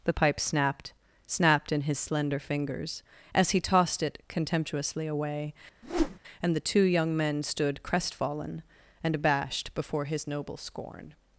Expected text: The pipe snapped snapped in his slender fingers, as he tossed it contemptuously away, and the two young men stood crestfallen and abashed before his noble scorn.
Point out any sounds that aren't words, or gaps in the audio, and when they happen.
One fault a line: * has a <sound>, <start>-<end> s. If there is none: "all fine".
* has a whoosh, 5.8-6.2 s